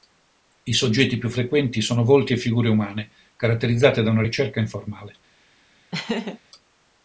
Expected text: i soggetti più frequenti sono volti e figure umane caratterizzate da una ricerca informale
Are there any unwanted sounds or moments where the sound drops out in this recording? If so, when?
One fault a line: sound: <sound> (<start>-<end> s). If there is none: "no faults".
sound: laugh (5.9-6.4 s)